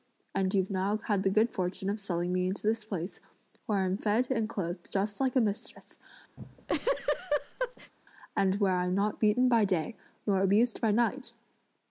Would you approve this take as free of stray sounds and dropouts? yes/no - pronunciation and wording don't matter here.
no